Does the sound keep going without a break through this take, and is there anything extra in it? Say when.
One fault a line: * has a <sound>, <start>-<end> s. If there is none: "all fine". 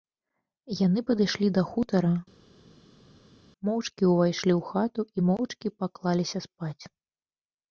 all fine